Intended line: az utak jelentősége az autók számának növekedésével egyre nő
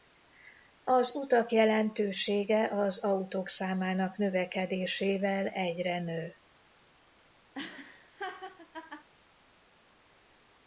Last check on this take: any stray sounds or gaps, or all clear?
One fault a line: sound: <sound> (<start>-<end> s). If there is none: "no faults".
sound: laugh (7.5-9.1 s)